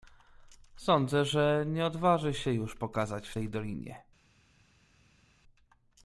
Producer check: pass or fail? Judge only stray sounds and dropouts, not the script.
pass